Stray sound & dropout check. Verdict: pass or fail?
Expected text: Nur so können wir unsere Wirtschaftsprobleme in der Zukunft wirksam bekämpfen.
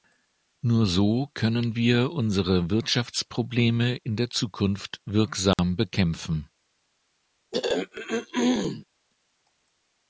fail